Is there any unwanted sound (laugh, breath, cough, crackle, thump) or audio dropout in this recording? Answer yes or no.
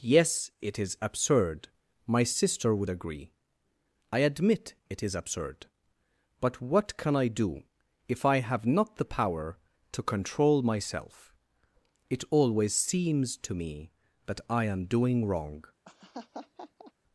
yes